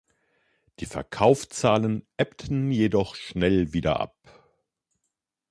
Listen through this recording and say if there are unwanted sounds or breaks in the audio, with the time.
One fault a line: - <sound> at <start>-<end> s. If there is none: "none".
none